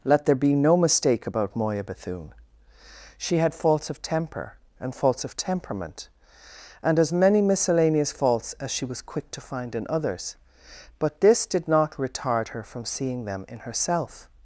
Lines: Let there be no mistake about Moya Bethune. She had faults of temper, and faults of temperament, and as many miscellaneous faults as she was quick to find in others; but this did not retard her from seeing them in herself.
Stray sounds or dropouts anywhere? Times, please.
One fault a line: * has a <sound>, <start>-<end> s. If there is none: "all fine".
all fine